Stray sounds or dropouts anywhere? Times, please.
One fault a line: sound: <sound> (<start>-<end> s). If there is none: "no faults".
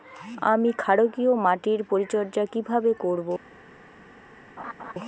sound: laugh (4.6-4.9 s)